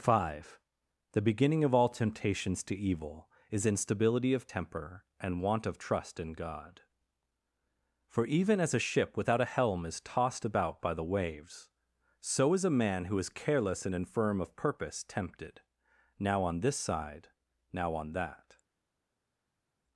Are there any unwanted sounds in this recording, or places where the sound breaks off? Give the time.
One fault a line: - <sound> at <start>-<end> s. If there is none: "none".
none